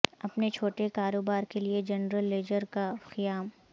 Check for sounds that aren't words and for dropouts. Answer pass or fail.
pass